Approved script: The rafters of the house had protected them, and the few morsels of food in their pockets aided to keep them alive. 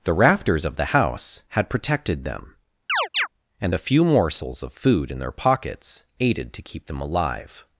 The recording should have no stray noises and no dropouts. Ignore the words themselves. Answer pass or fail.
fail